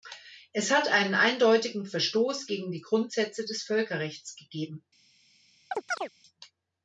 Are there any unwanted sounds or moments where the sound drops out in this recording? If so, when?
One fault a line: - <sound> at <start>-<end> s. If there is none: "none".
- chirp at 5.7-6.1 s